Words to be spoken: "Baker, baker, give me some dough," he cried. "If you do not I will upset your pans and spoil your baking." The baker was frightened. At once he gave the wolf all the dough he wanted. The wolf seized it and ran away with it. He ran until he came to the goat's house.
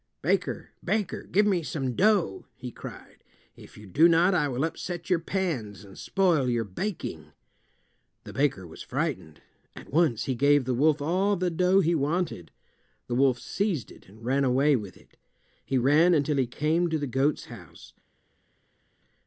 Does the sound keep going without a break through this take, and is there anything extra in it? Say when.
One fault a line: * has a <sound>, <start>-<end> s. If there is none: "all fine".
all fine